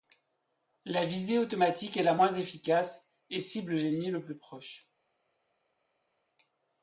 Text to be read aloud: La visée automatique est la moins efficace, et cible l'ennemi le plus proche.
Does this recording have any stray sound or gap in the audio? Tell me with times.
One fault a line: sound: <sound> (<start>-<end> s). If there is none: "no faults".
no faults